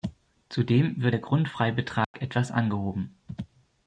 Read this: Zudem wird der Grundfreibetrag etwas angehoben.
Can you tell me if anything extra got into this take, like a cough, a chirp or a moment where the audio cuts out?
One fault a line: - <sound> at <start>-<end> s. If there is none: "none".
- dropout at 2.0-2.1 s